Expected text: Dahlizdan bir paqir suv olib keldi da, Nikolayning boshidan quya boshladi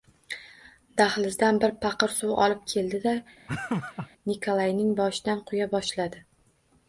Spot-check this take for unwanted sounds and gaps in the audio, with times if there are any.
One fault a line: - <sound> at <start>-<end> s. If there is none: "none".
- laugh at 3.5-4.1 s